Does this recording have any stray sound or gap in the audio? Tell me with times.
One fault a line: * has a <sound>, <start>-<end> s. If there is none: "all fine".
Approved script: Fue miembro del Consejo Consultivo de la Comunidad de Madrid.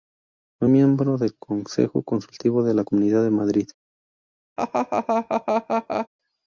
* has a laugh, 4.6-6.1 s